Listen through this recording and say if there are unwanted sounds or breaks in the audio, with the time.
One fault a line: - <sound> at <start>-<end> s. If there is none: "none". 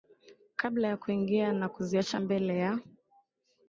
none